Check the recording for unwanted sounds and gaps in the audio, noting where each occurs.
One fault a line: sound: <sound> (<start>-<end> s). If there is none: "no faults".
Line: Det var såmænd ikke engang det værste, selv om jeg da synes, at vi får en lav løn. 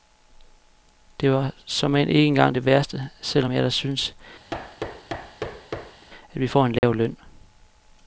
sound: thud (4.5-6.1 s)
sound: dropout (6.8-6.8 s)